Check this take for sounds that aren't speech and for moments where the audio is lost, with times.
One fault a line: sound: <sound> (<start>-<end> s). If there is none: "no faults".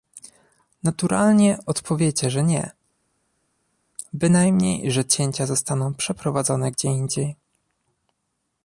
no faults